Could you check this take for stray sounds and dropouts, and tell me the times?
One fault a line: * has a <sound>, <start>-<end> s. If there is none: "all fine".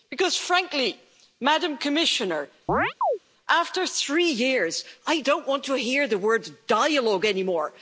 * has a chirp, 2.7-3.2 s